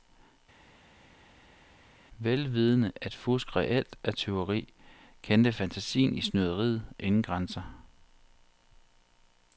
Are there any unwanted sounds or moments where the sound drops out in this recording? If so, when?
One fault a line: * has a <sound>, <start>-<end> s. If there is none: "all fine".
all fine